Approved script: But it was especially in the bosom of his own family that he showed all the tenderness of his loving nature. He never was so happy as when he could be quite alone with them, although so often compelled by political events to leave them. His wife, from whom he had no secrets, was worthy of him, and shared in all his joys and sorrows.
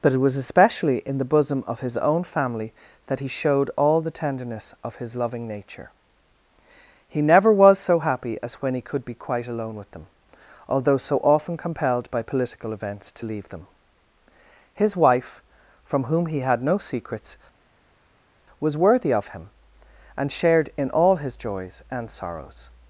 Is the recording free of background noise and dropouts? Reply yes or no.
yes